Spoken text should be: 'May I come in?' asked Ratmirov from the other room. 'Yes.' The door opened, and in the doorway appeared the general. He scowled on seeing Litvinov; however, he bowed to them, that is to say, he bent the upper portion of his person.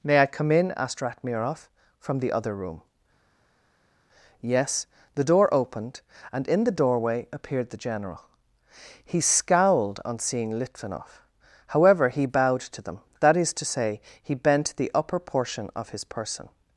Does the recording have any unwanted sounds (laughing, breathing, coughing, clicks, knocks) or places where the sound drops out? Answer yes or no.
no